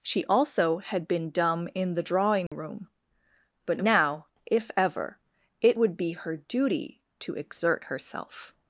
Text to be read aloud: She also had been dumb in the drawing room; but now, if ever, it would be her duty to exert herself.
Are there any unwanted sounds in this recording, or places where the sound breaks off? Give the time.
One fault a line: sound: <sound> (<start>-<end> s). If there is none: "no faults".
sound: dropout (2.5-2.5 s)